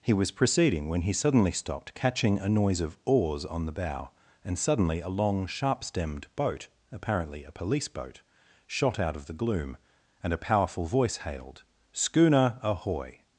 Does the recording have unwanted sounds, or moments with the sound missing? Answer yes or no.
no